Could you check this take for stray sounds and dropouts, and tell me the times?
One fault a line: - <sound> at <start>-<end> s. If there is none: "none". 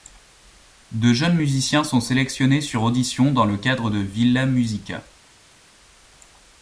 none